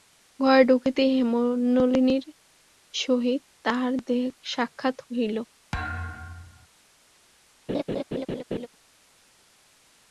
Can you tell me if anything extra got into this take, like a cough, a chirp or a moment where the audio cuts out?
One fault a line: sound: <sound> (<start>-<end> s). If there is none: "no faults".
sound: thud (5.7-6.7 s)
sound: laugh (7.7-8.7 s)